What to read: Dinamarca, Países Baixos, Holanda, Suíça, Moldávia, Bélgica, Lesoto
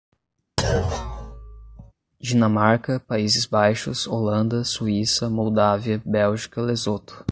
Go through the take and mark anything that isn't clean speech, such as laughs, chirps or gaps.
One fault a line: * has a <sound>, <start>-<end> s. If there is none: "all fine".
* has a thud, 0.6-1.9 s